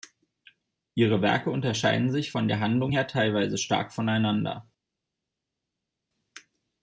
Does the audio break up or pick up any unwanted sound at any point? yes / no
no